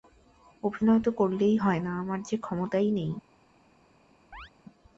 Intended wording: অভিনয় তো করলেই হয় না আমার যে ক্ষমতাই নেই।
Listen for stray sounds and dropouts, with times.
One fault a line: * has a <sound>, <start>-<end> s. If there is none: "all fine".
* has a chirp, 4.3-4.5 s